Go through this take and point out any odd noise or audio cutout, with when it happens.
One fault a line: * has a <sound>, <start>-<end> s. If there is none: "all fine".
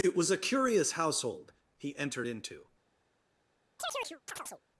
* has a chirp, 3.8-4.6 s